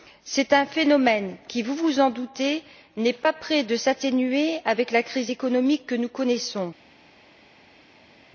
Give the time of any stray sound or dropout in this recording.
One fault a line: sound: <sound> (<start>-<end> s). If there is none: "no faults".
no faults